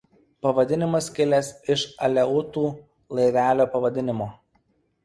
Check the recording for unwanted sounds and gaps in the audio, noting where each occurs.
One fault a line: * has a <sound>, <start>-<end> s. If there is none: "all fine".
all fine